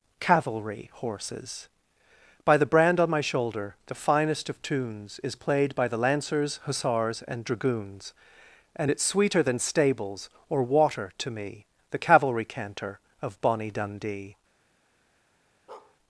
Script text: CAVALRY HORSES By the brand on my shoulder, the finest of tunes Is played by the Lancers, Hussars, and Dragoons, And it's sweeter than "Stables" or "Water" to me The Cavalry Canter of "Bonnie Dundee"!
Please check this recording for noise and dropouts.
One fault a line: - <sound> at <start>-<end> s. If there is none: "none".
- bark at 15.7-16.0 s